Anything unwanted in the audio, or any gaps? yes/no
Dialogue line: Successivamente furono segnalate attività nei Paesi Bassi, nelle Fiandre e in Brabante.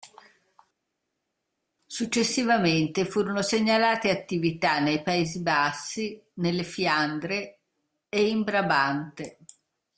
no